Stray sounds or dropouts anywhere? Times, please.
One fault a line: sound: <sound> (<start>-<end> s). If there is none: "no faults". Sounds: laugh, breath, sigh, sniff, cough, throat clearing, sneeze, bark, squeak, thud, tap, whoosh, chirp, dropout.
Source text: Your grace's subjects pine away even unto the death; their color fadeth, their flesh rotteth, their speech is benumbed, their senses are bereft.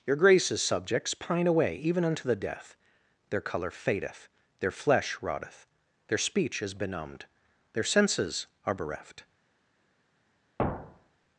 sound: thud (10.6-11.3 s)